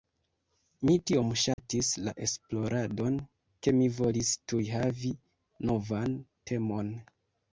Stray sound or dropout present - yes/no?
yes